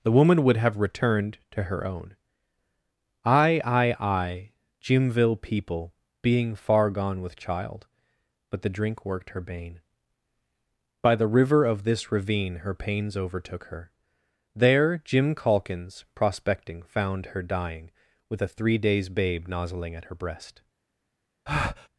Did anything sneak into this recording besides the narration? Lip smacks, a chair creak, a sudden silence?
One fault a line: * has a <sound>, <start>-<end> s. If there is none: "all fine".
* has a breath, 21.5-21.9 s